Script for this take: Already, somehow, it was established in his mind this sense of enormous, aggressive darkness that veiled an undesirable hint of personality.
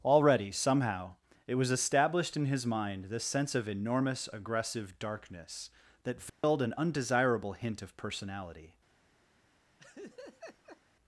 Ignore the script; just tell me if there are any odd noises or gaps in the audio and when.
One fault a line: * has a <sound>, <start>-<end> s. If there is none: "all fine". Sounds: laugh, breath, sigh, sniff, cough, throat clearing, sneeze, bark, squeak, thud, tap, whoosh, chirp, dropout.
* has a dropout, 6.3-6.4 s
* has a laugh, 9.8-10.8 s